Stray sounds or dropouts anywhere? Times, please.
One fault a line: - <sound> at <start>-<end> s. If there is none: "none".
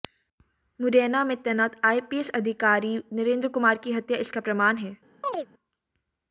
- chirp at 5.2-5.5 s